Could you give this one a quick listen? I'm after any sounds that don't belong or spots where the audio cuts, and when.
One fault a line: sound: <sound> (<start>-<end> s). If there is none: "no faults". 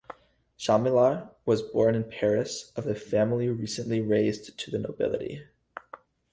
no faults